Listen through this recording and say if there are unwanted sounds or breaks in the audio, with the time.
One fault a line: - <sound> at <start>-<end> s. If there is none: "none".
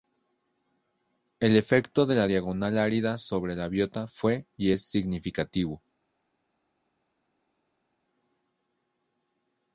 none